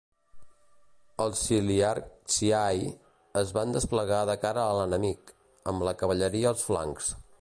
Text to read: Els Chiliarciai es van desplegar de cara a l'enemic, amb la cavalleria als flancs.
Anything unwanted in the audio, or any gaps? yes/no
no